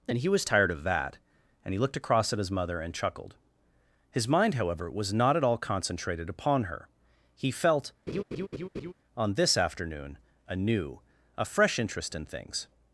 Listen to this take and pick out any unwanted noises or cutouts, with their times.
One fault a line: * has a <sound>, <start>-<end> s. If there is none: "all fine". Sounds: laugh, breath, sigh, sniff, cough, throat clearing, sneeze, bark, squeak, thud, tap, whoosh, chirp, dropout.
* has a laugh, 8.1-8.9 s